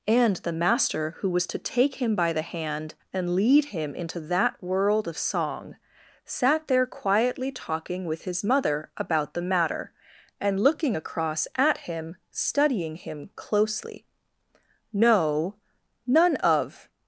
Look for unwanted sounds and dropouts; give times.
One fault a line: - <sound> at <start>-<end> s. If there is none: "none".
none